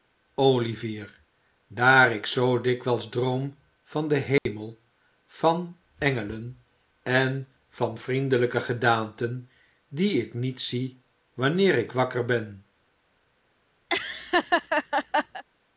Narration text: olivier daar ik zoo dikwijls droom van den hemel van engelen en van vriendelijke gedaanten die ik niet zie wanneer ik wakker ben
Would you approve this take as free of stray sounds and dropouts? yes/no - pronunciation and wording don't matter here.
no